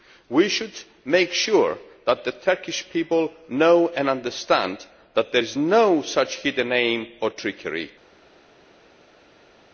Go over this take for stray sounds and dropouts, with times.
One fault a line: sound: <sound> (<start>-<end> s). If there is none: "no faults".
no faults